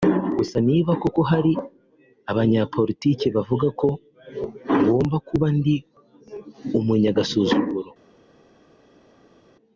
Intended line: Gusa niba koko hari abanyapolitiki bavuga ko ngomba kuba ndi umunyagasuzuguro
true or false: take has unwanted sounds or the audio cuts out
false